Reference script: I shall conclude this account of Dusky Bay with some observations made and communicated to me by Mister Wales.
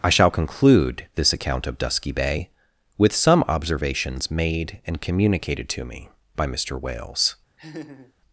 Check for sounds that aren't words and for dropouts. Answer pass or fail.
fail